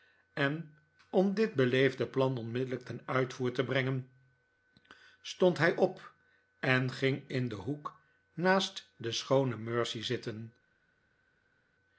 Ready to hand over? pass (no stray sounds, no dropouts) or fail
pass